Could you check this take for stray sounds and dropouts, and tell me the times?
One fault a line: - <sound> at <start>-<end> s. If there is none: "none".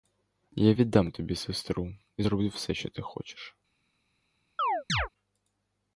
- chirp at 4.6-5.1 s